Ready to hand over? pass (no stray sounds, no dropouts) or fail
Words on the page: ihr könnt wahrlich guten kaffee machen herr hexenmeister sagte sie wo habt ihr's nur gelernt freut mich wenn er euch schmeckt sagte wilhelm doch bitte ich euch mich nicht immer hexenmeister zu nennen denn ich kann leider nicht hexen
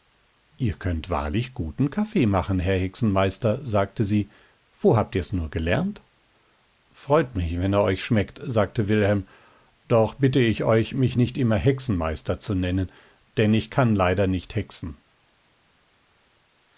pass